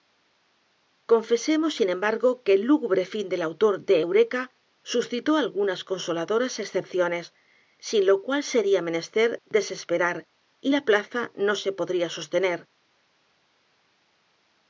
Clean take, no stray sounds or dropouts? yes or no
yes